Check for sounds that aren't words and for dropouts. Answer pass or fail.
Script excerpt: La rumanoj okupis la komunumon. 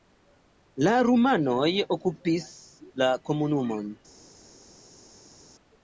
pass